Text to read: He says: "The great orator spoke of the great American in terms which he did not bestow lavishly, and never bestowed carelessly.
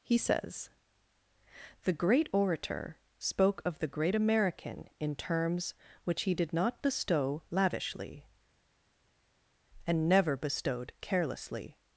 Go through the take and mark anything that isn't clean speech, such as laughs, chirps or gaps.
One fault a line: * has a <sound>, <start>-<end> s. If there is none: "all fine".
all fine